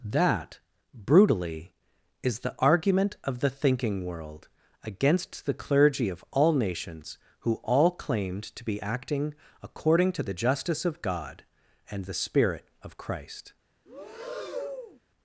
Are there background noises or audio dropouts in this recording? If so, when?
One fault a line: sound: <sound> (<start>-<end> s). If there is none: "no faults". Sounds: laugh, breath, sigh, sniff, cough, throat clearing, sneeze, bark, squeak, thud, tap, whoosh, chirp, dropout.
sound: breath (13.9-15.0 s)